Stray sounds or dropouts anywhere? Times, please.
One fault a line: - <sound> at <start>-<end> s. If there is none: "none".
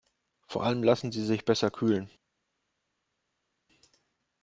none